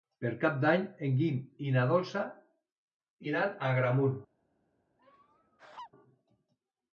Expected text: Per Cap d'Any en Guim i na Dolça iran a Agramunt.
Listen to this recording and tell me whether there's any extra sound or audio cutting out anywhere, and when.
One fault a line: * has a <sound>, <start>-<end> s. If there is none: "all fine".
* has a laugh, 5.0-5.9 s